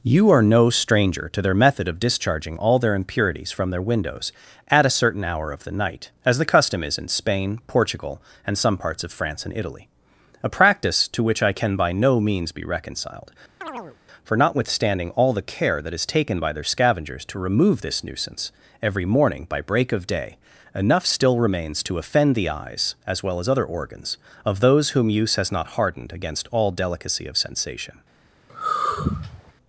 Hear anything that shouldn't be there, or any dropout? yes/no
yes